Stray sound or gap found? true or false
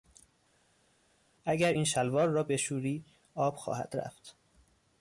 false